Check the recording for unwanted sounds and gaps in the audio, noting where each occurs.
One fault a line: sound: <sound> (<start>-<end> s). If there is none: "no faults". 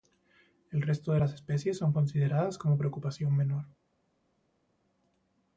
no faults